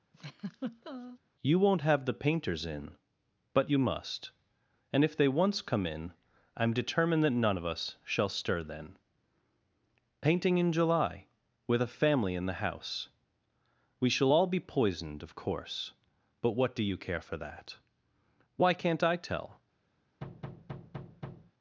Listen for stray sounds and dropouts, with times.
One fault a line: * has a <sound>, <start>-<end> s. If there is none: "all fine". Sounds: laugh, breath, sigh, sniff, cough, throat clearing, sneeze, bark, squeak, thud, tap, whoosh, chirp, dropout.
* has a laugh, 0.1-1.2 s
* has a thud, 20.2-21.5 s